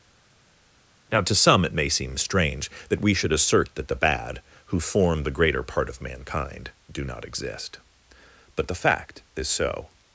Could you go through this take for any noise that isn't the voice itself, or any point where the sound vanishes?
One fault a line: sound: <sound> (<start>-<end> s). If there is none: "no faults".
no faults